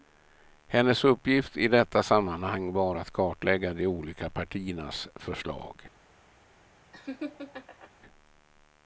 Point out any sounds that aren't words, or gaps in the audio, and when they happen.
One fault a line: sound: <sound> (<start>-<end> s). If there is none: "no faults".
sound: laugh (6.9-7.9 s)